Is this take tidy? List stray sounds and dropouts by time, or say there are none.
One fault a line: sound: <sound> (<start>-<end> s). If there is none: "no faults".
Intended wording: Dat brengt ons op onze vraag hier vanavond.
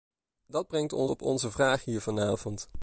no faults